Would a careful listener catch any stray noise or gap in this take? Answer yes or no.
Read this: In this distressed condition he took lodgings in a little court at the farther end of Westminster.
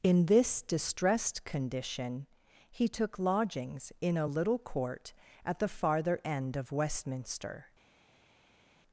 no